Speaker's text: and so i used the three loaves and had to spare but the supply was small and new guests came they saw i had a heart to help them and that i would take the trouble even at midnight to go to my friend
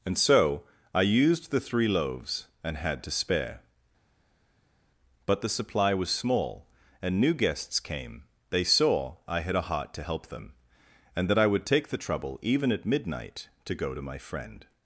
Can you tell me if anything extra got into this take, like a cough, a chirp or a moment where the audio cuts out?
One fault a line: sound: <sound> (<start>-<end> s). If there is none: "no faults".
no faults